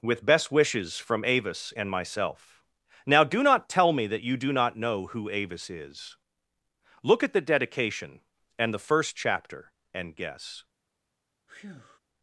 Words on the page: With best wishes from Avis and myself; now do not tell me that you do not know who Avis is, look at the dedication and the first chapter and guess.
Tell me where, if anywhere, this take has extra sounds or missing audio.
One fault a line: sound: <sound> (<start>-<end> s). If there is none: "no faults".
sound: breath (11.5-12.0 s)